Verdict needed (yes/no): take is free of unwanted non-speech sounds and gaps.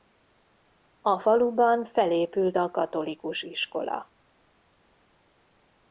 yes